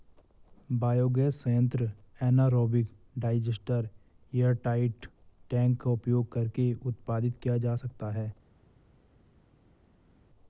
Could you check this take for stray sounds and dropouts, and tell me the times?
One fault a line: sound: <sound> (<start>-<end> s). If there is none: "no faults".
no faults